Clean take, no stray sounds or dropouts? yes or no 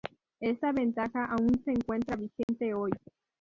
no